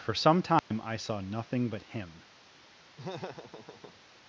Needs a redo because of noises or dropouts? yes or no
yes